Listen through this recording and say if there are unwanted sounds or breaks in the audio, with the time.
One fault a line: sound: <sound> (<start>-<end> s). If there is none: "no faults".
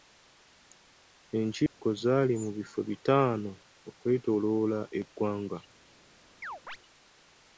sound: dropout (1.7-1.8 s)
sound: chirp (6.4-6.8 s)